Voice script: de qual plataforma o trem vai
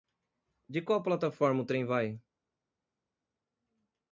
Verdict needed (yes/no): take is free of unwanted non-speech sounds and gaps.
yes